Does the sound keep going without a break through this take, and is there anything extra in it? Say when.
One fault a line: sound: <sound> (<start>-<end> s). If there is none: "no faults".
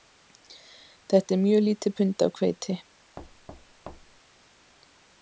sound: thud (3.2-4.2 s)